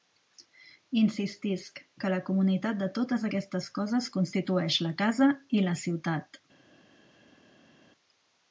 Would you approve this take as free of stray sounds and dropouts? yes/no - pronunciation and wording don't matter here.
yes